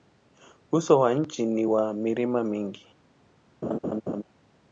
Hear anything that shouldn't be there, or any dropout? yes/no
yes